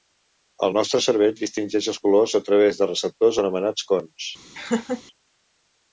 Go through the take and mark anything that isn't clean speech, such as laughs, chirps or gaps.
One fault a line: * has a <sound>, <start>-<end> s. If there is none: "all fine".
* has a laugh, 4.5-5.0 s